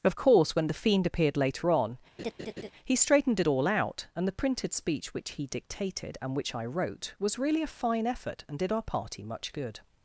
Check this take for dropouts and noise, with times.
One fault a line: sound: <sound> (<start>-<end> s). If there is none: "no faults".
sound: laugh (2.2-2.7 s)